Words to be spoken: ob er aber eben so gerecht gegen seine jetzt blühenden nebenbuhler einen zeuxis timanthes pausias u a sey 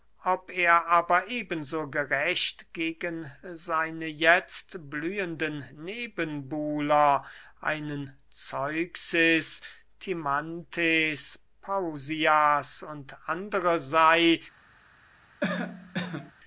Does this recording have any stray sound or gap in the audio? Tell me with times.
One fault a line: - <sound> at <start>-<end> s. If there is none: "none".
- cough at 15.4-16.3 s